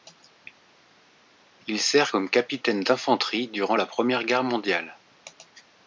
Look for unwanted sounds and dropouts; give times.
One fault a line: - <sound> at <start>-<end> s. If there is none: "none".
none